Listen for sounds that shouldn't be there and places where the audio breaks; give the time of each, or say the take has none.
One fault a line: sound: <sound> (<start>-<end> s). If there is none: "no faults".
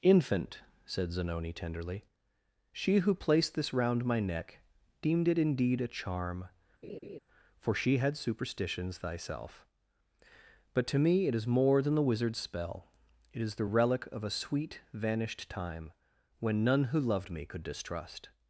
sound: laugh (6.8-7.2 s)